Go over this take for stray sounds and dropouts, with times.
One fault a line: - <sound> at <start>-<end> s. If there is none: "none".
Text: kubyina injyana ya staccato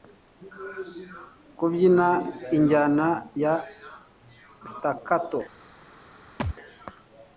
- thud at 6.4-6.6 s